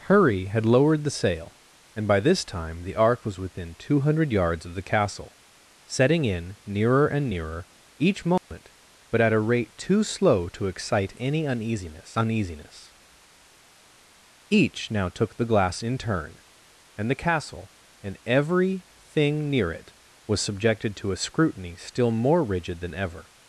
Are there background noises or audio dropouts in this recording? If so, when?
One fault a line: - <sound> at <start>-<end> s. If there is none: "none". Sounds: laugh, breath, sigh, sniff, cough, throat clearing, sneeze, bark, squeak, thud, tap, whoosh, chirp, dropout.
- dropout at 8.4-8.5 s